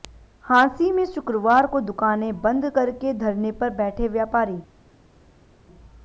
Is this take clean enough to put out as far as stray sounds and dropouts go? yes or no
yes